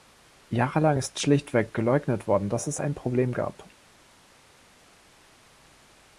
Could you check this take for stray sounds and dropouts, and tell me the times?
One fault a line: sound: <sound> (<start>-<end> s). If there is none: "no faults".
no faults